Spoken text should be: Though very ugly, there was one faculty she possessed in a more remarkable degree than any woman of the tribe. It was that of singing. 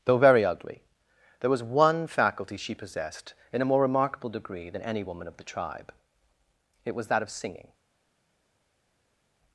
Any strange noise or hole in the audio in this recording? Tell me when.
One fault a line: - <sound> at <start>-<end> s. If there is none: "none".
none